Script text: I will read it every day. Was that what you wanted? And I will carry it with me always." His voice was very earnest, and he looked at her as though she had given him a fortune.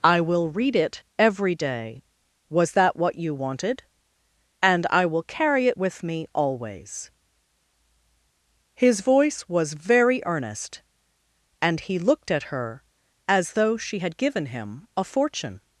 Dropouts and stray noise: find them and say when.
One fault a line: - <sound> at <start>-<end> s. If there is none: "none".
none